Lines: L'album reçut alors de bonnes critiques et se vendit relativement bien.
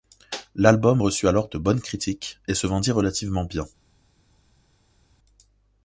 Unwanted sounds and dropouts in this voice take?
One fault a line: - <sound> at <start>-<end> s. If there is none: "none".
none